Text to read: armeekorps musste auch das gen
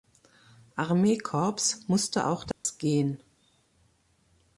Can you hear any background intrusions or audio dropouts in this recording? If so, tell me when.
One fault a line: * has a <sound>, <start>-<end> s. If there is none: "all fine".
* has a dropout, 2.5-2.7 s